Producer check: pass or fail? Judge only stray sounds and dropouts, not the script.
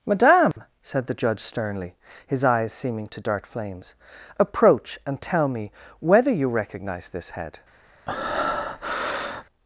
fail